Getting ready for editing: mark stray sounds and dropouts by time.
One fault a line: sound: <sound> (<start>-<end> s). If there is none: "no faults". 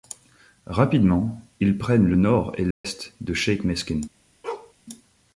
sound: dropout (2.7-2.8 s)
sound: bark (4.4-4.7 s)